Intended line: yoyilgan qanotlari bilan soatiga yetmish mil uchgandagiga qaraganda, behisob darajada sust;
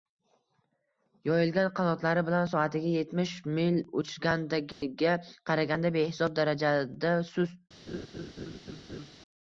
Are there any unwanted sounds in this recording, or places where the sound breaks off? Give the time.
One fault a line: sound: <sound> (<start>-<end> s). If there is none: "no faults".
sound: dropout (4.7-4.8 s)
sound: laugh (7.9-9.1 s)